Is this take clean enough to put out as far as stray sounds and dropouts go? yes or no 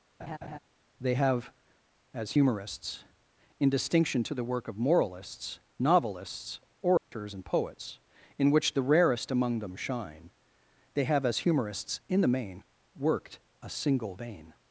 no